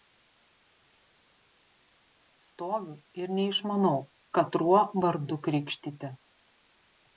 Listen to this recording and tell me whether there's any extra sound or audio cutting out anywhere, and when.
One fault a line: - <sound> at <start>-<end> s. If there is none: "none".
none